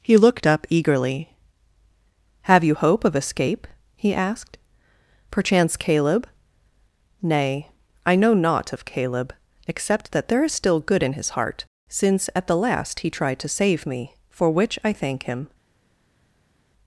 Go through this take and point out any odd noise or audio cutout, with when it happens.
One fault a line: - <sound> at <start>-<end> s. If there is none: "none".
none